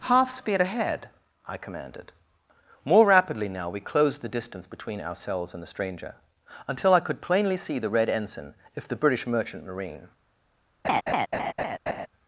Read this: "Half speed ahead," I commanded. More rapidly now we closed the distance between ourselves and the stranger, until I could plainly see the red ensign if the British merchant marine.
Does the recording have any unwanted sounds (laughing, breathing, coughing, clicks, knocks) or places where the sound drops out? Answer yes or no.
yes